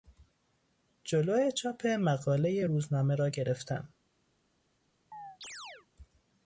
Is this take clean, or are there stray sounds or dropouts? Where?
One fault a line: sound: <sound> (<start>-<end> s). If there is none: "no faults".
sound: chirp (5.1-5.9 s)